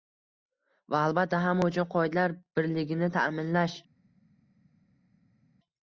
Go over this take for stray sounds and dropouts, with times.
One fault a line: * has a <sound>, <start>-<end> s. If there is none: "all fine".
all fine